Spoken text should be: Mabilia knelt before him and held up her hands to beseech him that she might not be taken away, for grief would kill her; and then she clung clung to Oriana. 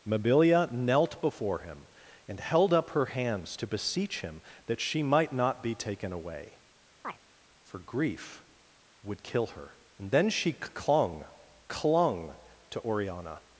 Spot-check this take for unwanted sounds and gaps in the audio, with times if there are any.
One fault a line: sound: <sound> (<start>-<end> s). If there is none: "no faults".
sound: chirp (7.0-7.2 s)